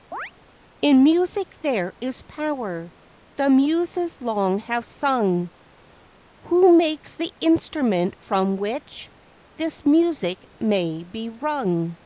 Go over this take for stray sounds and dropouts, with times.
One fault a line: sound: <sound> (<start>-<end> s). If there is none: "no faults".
sound: chirp (0.1-0.3 s)